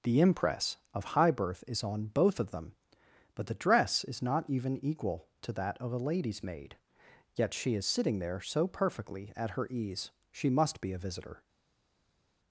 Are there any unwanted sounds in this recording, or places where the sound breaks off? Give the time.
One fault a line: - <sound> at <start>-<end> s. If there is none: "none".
none